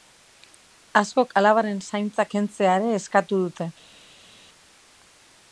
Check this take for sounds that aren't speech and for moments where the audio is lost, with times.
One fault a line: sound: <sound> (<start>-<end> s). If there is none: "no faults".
no faults